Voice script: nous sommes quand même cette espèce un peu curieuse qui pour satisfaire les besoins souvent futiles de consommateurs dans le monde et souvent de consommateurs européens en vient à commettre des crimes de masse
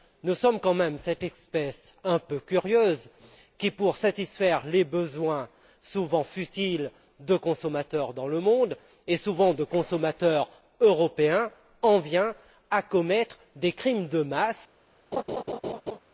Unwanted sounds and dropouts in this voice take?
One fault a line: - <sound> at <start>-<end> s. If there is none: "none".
- laugh at 15.1-16.0 s